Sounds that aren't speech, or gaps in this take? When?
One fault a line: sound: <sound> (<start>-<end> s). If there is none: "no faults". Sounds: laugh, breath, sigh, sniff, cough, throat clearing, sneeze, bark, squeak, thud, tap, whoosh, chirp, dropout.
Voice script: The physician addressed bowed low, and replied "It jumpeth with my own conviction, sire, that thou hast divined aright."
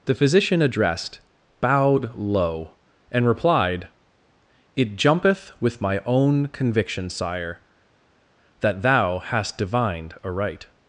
no faults